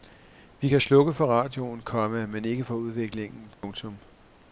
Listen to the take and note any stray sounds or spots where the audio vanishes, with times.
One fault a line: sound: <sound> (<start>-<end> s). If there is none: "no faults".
sound: dropout (3.5-3.6 s)